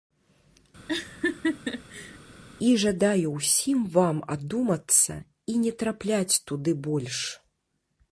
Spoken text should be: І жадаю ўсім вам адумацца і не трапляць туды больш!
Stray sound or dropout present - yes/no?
yes